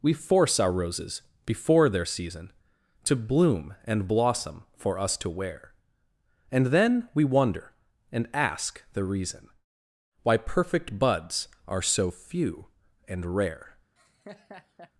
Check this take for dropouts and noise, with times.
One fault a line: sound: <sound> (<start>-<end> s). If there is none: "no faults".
sound: laugh (14.0-14.9 s)